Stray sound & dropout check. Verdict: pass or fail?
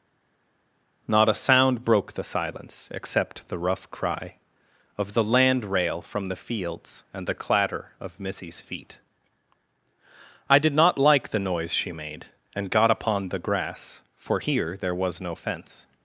pass